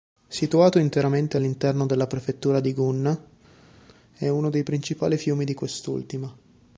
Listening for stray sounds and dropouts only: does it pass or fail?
pass